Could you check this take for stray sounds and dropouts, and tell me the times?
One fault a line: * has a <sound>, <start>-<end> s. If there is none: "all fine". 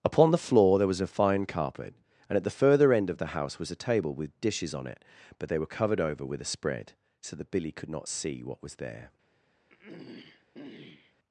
* has a throat clearing, 9.7-11.1 s